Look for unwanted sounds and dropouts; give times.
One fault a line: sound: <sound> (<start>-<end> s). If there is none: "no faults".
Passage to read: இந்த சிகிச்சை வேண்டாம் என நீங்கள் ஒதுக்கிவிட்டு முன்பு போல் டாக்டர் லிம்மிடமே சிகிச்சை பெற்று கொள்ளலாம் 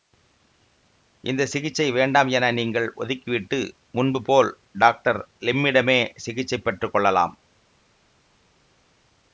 no faults